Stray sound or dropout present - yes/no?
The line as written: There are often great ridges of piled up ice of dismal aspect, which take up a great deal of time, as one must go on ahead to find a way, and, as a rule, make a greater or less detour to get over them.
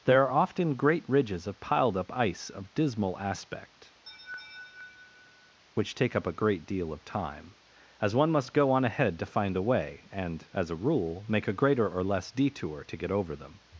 yes